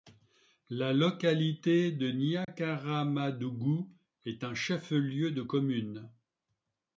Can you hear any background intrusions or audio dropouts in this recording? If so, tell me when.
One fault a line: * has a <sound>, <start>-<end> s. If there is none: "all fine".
* has a dropout, 2.4-2.5 s